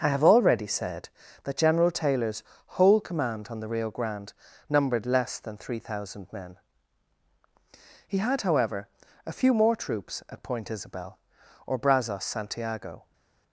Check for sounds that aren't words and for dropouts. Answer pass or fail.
pass